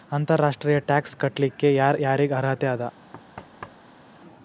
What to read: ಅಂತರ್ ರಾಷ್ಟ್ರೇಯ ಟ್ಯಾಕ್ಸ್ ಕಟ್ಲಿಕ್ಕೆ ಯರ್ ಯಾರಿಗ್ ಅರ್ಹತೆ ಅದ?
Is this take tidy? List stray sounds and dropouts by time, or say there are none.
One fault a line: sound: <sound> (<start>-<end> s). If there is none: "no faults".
sound: thud (3.1-4.1 s)